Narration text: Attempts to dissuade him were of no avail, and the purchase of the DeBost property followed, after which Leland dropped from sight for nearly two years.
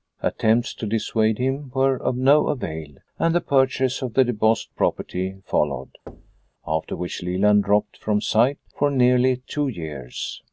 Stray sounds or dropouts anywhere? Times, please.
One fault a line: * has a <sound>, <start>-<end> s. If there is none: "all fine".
* has a thud, 6.1-6.5 s